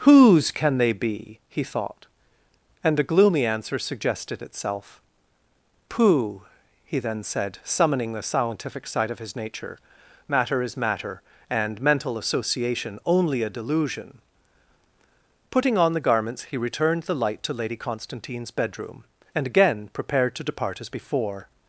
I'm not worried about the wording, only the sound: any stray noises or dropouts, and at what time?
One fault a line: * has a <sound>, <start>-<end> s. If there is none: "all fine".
all fine